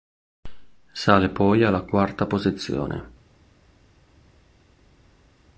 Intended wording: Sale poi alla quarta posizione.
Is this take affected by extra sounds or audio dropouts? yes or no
no